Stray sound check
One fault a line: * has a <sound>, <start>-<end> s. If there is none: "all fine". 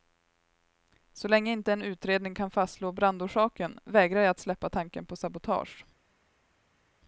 all fine